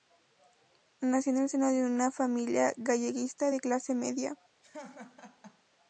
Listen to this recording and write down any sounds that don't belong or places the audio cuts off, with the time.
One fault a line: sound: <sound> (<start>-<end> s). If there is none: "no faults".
sound: laugh (4.6-5.6 s)